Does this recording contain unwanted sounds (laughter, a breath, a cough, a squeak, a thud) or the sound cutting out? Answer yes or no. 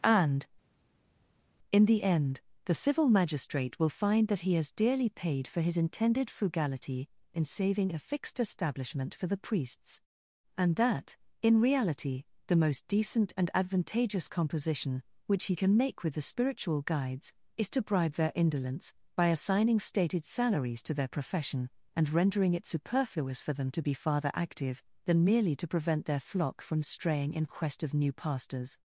no